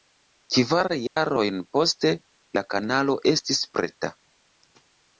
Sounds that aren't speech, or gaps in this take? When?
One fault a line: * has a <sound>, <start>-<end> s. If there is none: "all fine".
* has a dropout, 1.1-1.2 s